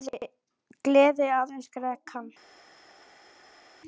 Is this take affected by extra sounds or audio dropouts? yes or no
no